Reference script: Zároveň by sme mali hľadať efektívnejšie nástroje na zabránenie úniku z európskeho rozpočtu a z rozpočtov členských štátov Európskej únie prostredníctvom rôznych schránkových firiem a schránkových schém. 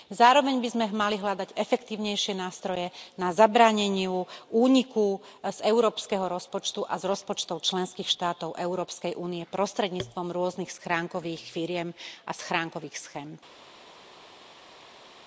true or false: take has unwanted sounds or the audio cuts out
false